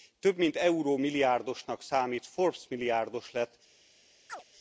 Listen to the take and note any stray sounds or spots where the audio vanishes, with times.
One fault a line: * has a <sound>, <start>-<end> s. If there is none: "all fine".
* has a chirp, 4.3-4.4 s